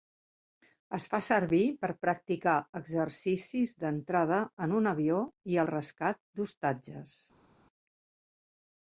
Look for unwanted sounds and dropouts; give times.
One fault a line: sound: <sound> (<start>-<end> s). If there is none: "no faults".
no faults